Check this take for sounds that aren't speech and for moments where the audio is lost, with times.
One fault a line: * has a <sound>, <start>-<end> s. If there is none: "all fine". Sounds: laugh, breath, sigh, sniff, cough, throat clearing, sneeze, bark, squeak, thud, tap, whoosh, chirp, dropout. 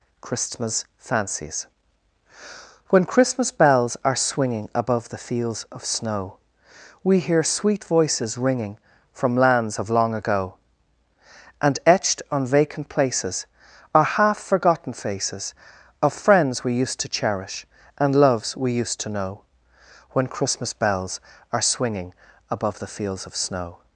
all fine